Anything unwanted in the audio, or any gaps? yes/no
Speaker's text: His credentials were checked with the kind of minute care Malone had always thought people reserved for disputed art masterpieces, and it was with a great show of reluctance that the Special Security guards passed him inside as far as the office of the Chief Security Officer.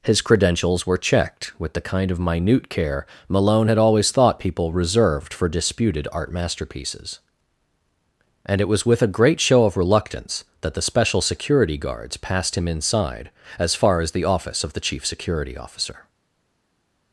no